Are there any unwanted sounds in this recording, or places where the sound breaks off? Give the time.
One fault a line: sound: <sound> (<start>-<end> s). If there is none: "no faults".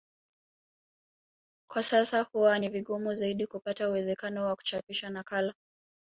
no faults